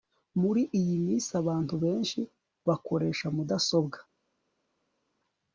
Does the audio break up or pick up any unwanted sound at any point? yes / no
no